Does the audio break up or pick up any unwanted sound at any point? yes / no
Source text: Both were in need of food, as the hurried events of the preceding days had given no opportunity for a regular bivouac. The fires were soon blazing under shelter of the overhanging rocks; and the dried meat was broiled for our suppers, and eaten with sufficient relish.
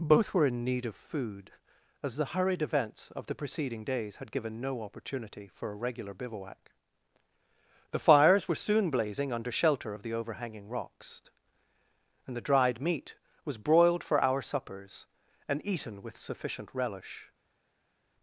no